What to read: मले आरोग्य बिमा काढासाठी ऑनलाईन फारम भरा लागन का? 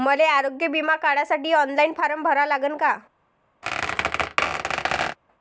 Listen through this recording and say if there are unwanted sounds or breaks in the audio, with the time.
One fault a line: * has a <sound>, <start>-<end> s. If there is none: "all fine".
* has a squeak, 3.6-5.2 s